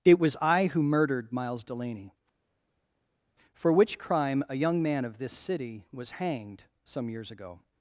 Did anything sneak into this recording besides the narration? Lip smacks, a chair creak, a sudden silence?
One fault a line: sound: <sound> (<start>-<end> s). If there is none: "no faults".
no faults